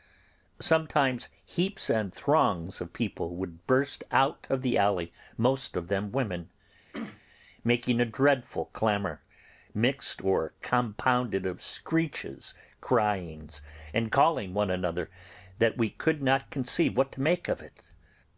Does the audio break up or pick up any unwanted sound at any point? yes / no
yes